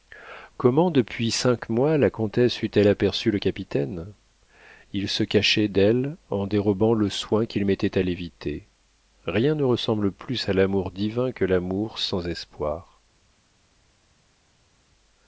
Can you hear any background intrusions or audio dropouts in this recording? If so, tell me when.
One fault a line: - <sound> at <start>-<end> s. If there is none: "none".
none